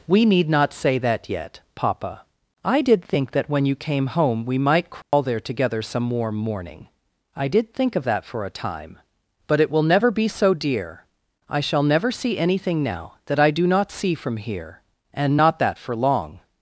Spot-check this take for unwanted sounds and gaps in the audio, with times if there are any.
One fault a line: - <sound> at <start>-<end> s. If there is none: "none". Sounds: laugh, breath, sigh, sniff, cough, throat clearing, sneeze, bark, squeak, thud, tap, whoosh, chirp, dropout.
- dropout at 5.0-5.1 s